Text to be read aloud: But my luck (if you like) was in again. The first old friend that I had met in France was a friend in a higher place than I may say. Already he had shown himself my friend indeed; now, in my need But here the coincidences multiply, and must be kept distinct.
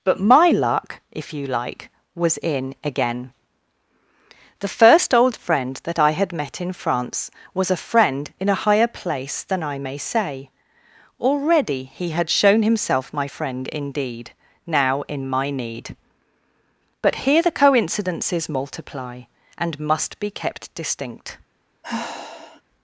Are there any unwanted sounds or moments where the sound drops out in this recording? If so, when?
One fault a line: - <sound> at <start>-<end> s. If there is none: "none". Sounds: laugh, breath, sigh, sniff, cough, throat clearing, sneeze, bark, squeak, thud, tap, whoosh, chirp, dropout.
- sigh at 21.8-22.6 s